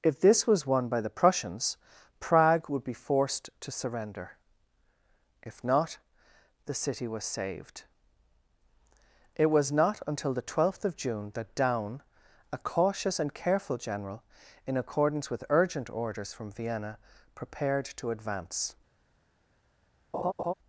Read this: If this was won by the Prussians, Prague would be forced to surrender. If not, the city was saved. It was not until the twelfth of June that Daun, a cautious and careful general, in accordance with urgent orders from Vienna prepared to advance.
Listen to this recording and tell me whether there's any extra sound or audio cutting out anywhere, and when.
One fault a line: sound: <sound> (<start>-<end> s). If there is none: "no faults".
sound: laugh (20.1-20.5 s)